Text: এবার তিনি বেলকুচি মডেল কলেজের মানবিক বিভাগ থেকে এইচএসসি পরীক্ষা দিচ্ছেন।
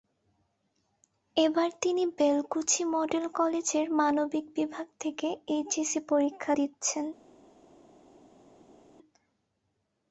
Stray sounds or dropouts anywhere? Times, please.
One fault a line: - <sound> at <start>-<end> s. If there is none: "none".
none